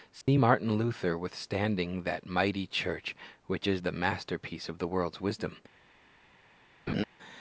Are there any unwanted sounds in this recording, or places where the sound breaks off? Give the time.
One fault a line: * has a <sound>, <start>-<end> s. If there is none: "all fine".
* has a dropout, 0.2-0.3 s
* has a laugh, 6.9-7.0 s